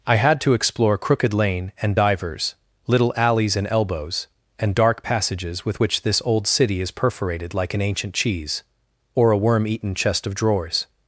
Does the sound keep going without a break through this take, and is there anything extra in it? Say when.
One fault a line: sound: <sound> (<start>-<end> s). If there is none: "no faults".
no faults